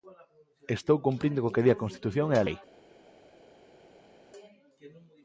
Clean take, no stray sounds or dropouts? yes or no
yes